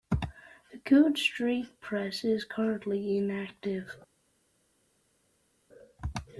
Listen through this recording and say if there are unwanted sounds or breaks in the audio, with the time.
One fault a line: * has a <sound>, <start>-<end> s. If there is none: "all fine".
all fine